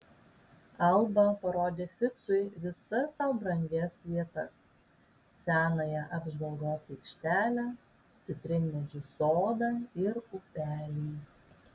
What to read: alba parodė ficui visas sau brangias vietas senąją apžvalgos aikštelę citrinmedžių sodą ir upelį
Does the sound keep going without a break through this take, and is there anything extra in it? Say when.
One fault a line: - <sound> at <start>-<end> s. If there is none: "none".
none